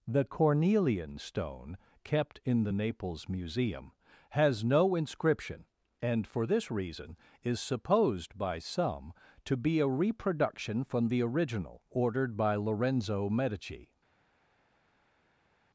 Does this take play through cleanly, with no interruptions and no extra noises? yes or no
yes